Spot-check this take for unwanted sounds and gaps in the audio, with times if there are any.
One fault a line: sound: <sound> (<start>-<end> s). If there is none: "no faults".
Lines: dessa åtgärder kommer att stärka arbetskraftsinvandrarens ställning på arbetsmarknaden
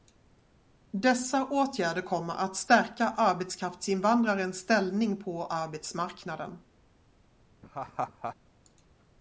sound: laugh (7.6-8.4 s)